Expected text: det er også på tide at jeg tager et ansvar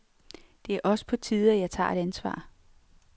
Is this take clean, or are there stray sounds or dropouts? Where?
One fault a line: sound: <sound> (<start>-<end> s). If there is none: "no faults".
no faults